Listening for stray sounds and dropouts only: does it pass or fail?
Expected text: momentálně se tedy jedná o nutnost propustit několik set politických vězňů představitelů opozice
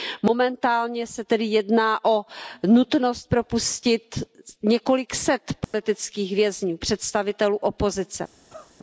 fail